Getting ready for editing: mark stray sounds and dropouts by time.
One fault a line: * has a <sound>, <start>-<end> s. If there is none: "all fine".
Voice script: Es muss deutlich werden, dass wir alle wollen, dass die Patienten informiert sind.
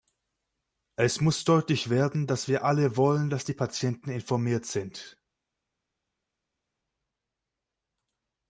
all fine